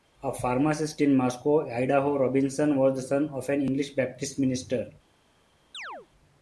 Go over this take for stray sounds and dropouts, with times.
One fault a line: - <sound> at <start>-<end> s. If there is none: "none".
- chirp at 5.7-6.1 s